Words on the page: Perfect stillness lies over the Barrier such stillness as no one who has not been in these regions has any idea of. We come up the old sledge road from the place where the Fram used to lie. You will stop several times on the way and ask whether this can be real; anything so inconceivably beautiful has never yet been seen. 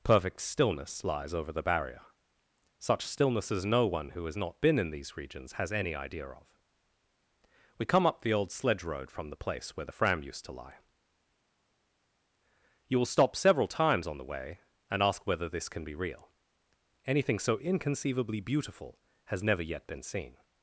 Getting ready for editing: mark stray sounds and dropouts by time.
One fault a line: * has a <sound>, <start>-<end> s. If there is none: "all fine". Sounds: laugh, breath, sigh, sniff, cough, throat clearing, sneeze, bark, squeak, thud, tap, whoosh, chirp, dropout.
all fine